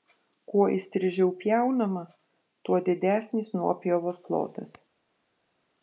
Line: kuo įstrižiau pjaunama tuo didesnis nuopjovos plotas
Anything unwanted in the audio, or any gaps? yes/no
no